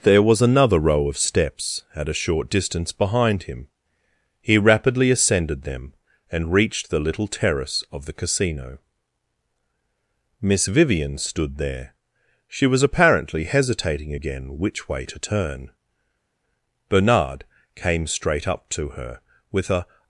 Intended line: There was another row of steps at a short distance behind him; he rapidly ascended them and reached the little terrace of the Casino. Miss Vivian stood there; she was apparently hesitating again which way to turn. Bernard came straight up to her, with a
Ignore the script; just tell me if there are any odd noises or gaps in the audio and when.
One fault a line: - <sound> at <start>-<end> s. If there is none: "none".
none